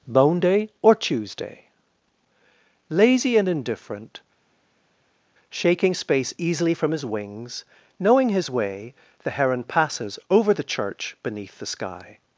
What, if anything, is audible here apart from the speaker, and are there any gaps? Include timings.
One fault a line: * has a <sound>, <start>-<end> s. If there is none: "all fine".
all fine